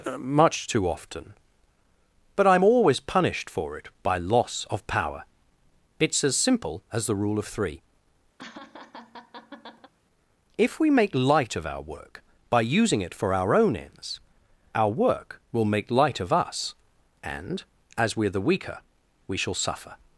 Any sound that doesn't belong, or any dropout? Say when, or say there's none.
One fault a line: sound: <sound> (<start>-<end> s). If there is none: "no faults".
sound: laugh (8.4-9.9 s)